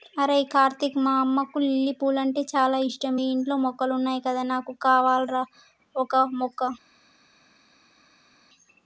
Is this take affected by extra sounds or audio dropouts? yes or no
no